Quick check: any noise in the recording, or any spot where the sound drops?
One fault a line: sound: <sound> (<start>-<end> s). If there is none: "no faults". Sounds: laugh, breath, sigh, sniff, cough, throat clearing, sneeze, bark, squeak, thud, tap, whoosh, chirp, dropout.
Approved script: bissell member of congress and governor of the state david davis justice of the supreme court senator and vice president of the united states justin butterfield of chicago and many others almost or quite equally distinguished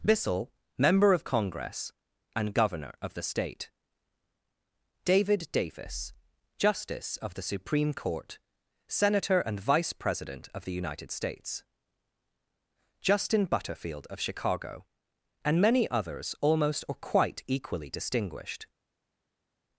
no faults